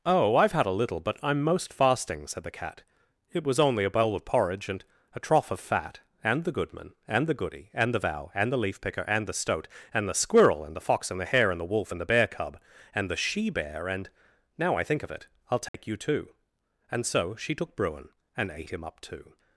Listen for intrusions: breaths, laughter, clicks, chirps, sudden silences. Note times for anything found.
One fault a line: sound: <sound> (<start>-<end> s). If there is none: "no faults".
sound: dropout (15.7-15.7 s)